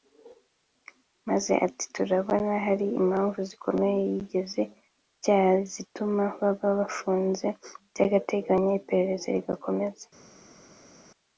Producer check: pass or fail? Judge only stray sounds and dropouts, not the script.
pass